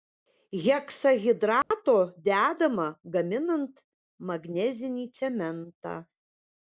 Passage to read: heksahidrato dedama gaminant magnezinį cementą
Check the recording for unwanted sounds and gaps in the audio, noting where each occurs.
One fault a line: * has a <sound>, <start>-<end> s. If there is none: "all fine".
* has a dropout, 1.6-1.7 s